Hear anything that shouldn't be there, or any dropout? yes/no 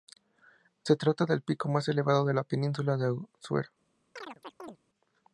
yes